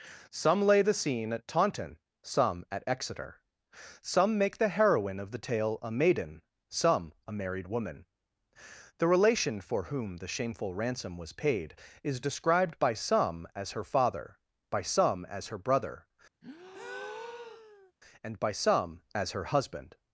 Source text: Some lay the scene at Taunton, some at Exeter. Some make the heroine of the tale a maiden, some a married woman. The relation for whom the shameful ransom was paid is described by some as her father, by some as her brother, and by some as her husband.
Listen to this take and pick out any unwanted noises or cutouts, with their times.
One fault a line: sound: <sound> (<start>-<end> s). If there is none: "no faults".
sound: breath (16.4-17.9 s)